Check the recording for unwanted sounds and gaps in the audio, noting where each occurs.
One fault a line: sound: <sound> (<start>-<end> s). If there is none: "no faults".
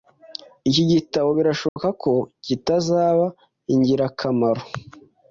sound: dropout (1.7-1.8 s)